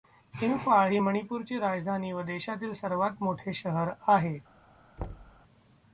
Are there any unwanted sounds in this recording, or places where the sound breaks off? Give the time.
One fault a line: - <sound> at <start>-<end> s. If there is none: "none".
- thud at 5.0-5.4 s